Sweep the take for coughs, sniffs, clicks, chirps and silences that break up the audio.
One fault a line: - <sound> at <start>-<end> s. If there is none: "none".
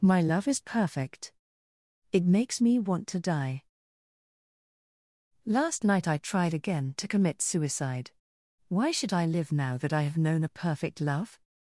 none